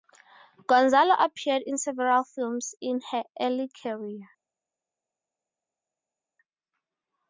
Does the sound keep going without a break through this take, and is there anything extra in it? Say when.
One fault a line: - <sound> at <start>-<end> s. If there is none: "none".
none